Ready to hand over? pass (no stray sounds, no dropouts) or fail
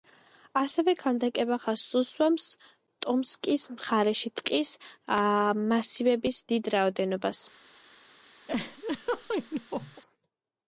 fail